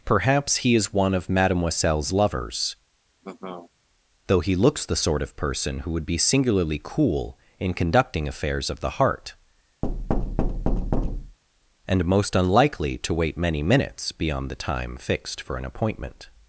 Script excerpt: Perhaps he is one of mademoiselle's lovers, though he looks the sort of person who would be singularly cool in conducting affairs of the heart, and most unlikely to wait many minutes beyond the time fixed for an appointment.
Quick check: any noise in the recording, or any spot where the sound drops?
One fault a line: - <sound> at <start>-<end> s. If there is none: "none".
- laugh at 3.2-3.7 s
- thud at 9.8-11.4 s